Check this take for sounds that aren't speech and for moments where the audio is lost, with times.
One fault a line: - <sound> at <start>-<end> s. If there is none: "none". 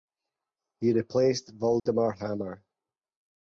- dropout at 1.8-1.9 s